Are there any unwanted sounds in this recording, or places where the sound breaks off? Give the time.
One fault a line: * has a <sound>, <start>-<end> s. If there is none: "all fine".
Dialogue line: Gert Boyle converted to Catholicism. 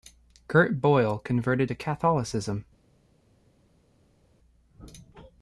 all fine